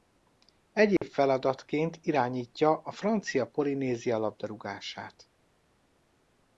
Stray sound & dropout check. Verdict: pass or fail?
fail